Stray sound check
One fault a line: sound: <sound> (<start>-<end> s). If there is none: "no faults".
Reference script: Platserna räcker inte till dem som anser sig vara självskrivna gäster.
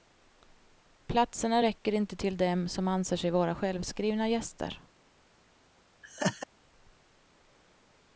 sound: laugh (6.0-6.5 s)